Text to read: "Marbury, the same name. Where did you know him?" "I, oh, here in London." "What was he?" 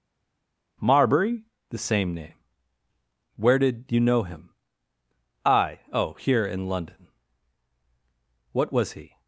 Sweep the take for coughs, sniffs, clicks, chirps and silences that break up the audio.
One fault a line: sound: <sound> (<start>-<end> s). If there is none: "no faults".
no faults